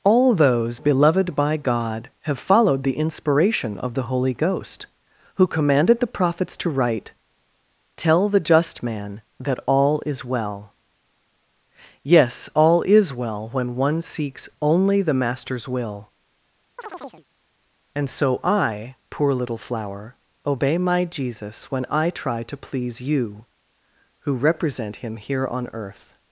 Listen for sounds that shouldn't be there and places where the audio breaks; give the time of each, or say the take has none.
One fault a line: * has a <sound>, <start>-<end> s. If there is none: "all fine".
* has a chirp, 16.8-17.3 s